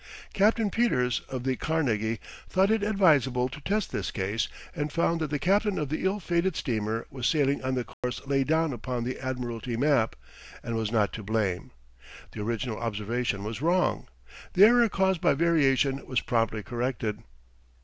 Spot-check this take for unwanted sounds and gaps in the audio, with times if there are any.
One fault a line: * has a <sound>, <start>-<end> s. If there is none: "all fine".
* has a dropout, 7.9-8.0 s